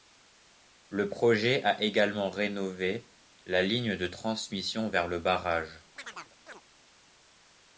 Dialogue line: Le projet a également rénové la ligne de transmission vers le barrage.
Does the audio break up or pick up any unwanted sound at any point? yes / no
yes